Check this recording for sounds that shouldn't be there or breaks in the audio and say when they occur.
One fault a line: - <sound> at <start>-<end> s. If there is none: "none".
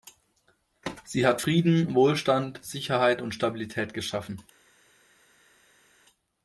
none